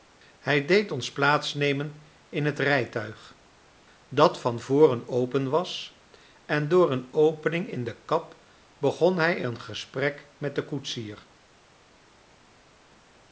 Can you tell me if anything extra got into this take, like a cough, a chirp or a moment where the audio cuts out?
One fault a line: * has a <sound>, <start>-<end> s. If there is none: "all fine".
all fine